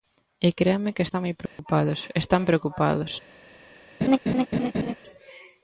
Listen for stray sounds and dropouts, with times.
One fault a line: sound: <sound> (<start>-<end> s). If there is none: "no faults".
sound: dropout (1.5-1.6 s)
sound: laugh (4.0-5.0 s)